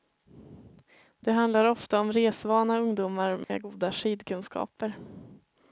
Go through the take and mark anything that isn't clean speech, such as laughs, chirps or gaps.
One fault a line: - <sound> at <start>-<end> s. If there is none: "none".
- dropout at 3.4-3.5 s